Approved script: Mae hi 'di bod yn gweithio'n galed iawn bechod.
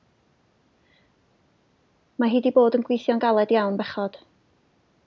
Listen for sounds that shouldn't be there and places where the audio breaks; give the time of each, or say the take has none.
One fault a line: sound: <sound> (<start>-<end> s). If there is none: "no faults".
no faults